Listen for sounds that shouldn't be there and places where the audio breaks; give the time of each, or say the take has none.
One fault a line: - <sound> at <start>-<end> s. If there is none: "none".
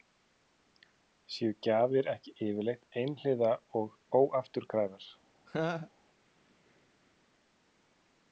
- laugh at 5.5-5.9 s